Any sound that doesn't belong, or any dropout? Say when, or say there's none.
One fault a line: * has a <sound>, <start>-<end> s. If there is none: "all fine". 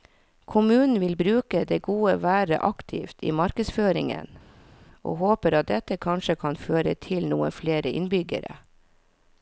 all fine